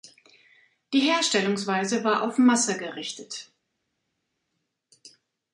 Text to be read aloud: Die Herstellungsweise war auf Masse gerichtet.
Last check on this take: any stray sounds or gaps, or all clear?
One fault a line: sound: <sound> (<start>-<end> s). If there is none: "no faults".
no faults